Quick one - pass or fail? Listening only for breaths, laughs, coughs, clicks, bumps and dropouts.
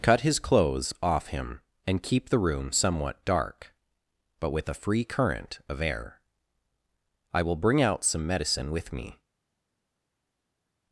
pass